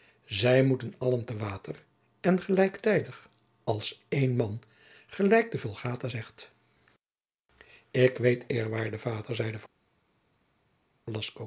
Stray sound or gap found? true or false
false